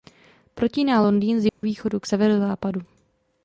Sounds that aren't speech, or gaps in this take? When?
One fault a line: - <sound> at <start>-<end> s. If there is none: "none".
- dropout at 1.5-1.6 s